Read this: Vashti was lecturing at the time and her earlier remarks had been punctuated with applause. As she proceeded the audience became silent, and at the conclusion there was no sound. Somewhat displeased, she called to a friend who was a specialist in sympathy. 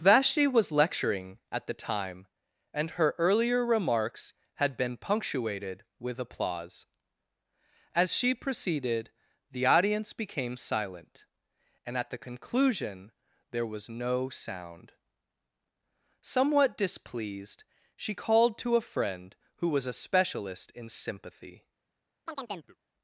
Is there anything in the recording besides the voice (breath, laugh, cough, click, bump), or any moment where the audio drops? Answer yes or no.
yes